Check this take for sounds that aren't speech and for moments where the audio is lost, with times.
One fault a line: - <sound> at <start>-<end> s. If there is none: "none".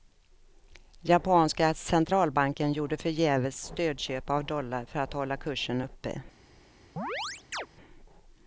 - chirp at 7.0-7.7 s